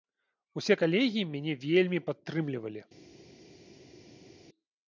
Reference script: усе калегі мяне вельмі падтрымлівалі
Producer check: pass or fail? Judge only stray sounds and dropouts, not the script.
pass